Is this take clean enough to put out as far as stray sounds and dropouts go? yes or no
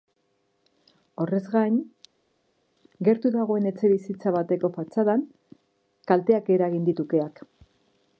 yes